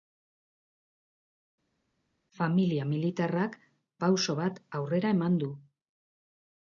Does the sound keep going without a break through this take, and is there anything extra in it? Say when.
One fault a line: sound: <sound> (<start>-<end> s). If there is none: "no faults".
no faults